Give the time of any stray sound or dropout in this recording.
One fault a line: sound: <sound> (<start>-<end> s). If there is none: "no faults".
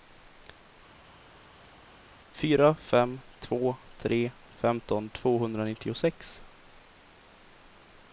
no faults